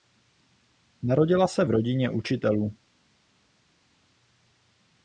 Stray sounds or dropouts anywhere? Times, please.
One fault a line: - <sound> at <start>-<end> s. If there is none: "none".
none